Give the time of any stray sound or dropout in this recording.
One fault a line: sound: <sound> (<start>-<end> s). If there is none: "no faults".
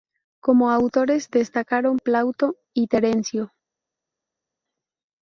no faults